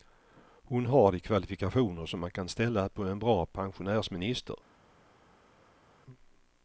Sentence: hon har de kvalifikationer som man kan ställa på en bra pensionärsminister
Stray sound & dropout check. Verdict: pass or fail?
pass